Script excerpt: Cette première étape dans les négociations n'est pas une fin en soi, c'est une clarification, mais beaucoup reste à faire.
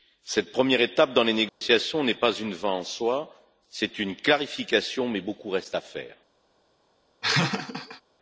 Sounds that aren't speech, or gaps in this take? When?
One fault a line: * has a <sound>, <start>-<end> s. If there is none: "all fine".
* has a dropout, 1.5-1.6 s
* has a laugh, 7.2-8.0 s